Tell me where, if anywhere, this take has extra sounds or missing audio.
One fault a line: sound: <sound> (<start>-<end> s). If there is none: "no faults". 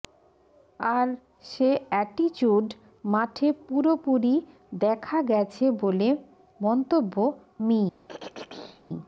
sound: throat clearing (8.1-8.8 s)